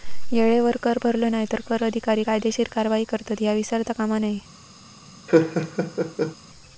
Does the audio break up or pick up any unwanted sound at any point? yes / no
yes